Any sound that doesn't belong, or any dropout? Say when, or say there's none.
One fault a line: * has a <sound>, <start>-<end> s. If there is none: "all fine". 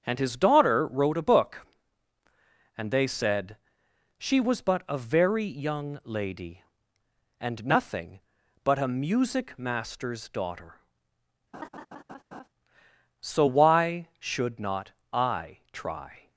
* has a laugh, 11.5-12.5 s